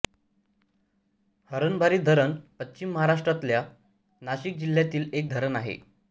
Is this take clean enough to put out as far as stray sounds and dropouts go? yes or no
yes